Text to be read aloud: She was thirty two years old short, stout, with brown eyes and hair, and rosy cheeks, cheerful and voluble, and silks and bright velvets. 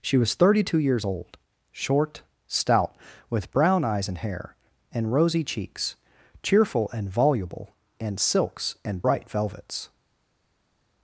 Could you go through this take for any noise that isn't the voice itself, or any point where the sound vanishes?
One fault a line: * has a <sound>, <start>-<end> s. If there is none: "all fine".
all fine